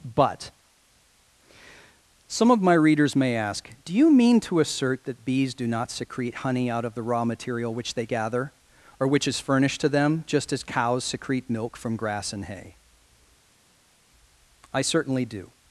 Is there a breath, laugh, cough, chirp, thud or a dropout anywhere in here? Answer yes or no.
no